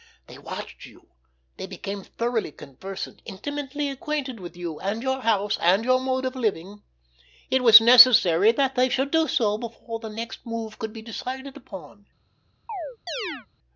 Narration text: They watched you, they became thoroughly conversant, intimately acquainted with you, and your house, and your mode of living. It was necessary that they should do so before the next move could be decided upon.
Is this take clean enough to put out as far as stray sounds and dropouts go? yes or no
no